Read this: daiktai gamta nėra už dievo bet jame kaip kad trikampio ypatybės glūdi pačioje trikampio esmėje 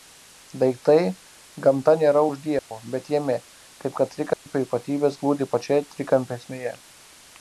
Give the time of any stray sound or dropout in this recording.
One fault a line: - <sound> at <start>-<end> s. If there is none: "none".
- dropout at 2.6-2.7 s
- dropout at 4.3-4.5 s